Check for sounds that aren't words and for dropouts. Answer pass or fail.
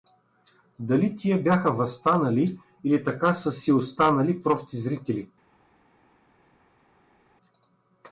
pass